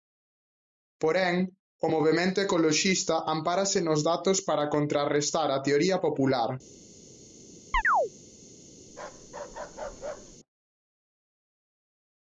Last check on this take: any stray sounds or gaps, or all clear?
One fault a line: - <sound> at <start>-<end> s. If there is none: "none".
- chirp at 7.7-8.1 s
- bark at 8.9-10.4 s